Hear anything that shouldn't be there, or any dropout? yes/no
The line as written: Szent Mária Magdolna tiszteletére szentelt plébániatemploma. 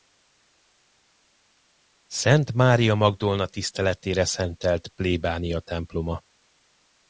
no